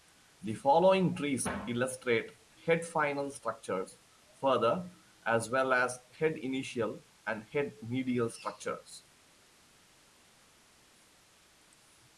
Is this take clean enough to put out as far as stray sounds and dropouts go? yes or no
yes